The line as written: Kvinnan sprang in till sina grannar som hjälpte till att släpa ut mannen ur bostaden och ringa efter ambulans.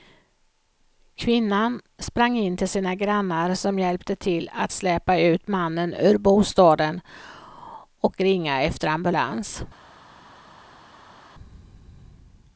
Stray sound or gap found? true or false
false